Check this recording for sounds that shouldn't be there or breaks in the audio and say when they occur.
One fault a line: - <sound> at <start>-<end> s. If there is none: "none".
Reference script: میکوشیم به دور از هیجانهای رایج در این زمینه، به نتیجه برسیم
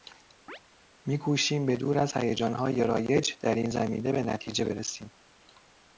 - chirp at 0.5-0.6 s